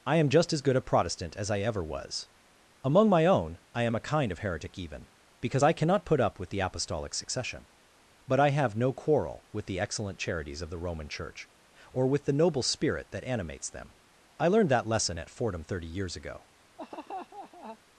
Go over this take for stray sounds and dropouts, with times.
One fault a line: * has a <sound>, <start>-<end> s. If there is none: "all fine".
* has a laugh, 16.8-17.8 s